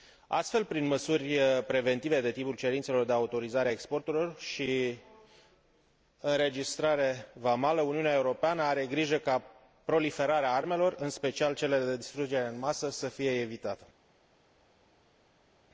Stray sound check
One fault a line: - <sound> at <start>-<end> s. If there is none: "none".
none